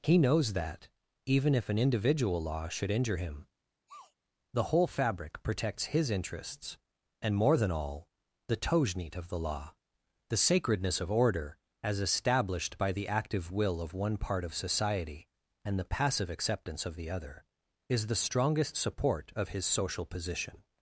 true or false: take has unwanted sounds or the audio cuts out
true